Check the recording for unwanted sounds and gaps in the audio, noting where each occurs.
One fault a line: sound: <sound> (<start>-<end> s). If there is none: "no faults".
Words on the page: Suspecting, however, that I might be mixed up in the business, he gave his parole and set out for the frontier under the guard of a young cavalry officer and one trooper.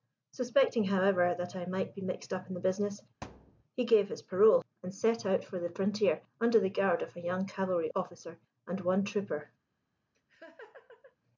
sound: thud (3.2-3.6 s)
sound: laugh (10.1-11.2 s)